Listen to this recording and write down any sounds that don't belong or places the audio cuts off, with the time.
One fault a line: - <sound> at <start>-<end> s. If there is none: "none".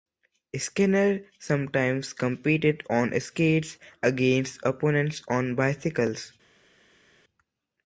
none